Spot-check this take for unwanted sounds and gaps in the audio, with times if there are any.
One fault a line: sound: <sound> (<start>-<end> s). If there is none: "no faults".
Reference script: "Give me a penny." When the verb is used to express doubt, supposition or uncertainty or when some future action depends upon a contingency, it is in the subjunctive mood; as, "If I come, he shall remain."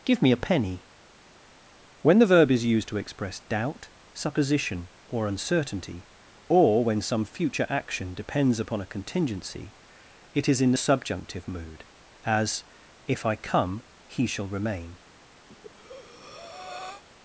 sound: breath (15.5-17.0 s)